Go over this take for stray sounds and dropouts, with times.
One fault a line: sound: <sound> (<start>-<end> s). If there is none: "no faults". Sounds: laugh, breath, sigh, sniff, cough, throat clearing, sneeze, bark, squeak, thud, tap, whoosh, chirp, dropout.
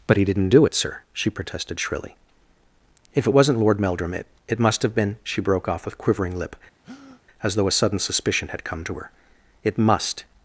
sound: breath (6.8-7.2 s)